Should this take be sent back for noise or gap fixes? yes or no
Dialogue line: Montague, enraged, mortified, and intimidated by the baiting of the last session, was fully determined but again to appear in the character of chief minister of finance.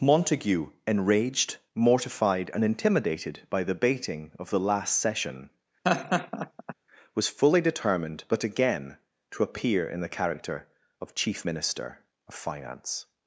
yes